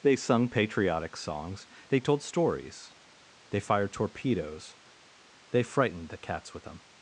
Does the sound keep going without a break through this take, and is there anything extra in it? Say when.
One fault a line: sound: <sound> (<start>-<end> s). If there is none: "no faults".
no faults